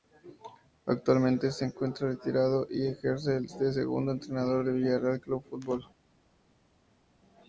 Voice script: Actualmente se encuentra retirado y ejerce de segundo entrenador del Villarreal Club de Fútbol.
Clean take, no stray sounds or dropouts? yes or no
yes